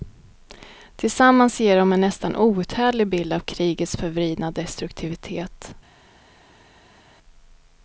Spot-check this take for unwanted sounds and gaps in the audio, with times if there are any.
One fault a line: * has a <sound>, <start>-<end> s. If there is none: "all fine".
all fine